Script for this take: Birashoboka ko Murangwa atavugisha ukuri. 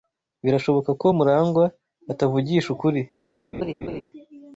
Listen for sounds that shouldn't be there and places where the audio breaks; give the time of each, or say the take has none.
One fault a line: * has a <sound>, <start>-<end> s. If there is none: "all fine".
* has a laugh, 3.5-4.0 s